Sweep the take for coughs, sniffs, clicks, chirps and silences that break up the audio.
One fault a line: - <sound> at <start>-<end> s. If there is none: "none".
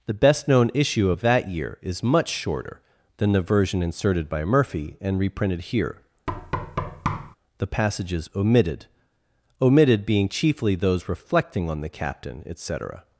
- thud at 6.3-7.4 s